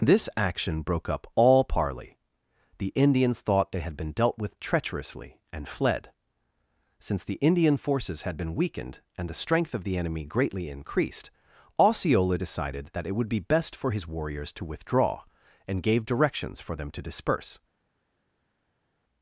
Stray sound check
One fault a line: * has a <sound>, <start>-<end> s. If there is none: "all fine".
all fine